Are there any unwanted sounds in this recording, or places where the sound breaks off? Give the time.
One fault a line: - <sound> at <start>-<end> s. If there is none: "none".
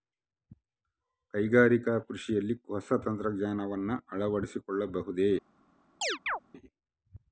- chirp at 6.0-6.4 s